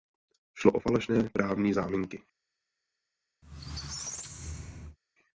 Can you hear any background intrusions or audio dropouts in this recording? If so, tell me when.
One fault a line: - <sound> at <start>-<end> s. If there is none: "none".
- squeak at 3.4-5.0 s